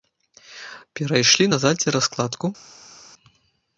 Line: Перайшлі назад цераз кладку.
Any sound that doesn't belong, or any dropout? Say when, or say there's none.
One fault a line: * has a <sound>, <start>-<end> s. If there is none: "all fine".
all fine